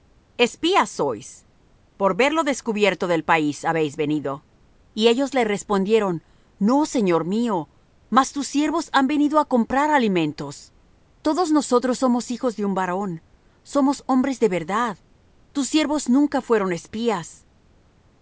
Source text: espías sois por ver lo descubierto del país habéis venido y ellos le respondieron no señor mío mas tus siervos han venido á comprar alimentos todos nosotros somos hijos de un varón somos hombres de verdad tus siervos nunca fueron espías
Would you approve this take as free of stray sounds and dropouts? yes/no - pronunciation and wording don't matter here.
yes